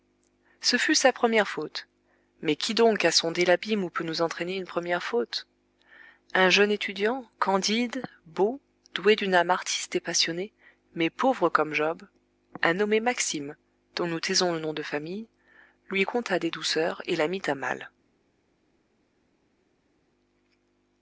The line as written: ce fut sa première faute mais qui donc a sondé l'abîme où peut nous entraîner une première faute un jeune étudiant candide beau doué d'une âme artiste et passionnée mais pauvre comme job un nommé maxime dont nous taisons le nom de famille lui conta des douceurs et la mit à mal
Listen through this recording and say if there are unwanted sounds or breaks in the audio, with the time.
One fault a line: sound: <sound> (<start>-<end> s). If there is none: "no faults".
no faults